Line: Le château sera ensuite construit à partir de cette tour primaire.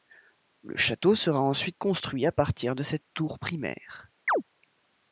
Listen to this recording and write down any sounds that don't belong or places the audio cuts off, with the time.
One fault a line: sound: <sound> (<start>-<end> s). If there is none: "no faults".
sound: chirp (4.3-4.4 s)